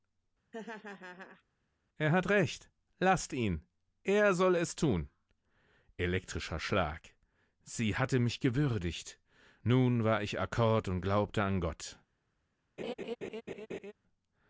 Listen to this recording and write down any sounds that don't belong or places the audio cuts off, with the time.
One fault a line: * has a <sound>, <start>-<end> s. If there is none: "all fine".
* has a laugh, 0.5-1.4 s
* has a laugh, 12.8-13.9 s